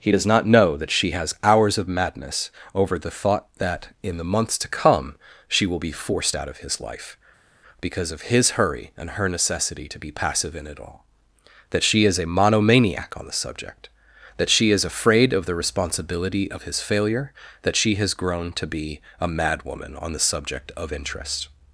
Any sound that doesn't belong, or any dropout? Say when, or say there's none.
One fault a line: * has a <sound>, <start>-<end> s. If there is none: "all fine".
all fine